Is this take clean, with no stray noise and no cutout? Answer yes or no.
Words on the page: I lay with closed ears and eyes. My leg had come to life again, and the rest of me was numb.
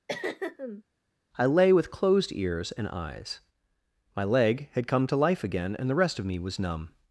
no